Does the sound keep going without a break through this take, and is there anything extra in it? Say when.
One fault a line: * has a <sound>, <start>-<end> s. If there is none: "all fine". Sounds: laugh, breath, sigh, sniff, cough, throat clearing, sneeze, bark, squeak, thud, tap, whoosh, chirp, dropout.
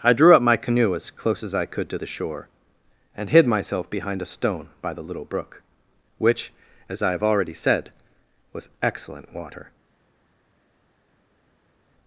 all fine